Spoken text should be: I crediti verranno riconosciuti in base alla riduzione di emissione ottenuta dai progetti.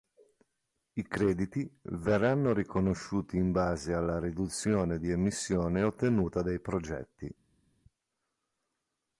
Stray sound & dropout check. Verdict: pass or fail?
pass